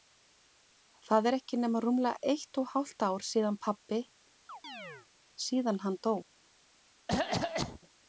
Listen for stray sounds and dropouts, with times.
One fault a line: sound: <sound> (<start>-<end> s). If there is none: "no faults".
sound: chirp (4.5-5.1 s)
sound: cough (7.1-7.8 s)